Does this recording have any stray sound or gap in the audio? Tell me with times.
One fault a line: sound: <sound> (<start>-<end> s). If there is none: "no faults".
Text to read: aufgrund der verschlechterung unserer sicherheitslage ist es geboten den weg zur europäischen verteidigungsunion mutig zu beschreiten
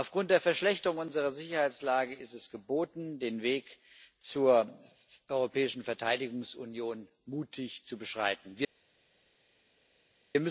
no faults